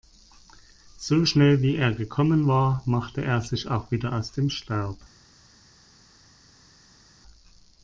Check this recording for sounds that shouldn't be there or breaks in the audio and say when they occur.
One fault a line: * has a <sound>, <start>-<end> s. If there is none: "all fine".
all fine